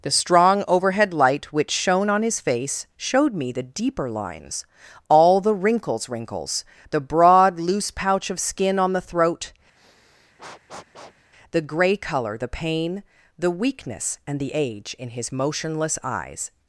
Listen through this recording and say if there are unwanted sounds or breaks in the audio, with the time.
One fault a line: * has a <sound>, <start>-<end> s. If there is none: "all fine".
* has a sniff, 9.8-11.3 s